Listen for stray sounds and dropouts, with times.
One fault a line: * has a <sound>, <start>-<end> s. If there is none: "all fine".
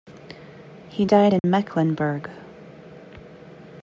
* has a dropout, 1.4-1.4 s